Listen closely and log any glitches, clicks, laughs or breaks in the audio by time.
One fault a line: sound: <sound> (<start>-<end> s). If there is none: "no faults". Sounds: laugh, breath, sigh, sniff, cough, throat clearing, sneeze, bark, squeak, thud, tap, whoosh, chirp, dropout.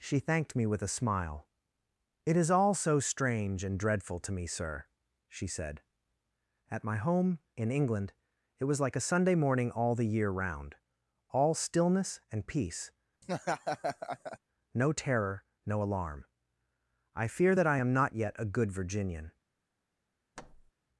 sound: laugh (13.2-14.4 s)
sound: thud (20.4-20.7 s)